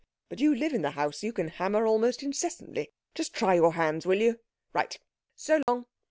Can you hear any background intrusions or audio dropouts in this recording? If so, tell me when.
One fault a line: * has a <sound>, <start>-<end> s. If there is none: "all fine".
* has a dropout, 5.6-5.7 s